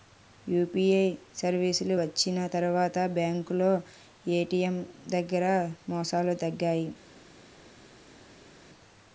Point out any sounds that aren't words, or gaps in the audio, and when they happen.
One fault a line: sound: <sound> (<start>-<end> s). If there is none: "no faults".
no faults